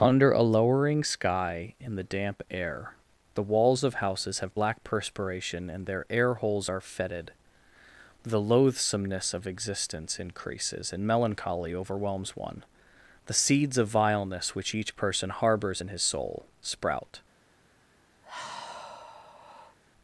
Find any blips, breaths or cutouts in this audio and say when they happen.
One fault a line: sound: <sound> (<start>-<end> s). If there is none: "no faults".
sound: sigh (18.2-19.8 s)